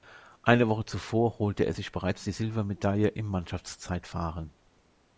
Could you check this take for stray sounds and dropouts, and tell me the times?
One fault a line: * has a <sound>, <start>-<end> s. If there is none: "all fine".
all fine